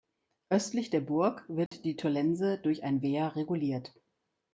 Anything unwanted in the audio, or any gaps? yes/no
yes